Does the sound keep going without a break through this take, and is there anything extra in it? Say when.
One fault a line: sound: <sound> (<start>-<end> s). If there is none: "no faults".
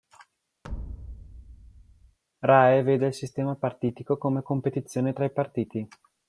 sound: thud (0.6-2.2 s)